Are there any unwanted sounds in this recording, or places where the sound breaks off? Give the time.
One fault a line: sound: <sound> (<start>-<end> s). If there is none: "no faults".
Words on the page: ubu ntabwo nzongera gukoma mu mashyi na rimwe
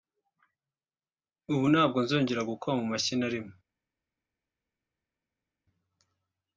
no faults